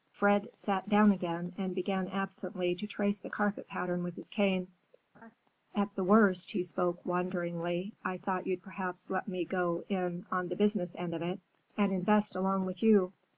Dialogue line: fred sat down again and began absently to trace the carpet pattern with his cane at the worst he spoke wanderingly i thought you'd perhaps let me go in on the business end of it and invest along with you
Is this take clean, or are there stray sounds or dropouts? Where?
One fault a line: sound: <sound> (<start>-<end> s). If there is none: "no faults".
sound: laugh (5.1-5.4 s)